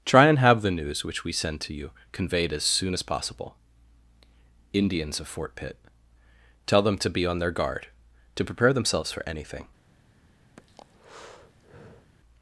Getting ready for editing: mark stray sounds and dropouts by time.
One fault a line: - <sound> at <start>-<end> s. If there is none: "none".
- breath at 10.6-12.1 s